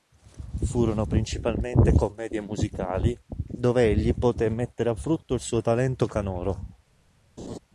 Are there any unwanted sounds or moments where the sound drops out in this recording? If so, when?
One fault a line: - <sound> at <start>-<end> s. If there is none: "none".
- laugh at 7.4-7.6 s